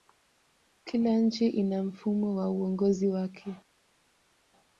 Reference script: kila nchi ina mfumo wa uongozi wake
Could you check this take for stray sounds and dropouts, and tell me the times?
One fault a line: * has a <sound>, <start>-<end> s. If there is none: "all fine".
all fine